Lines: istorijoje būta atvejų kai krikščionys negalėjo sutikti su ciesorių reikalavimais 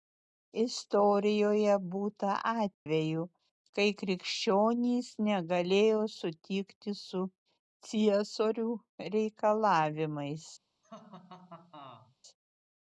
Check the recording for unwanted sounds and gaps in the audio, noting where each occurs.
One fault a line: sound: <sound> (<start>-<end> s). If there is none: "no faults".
sound: dropout (2.7-2.9 s)
sound: laugh (10.8-12.2 s)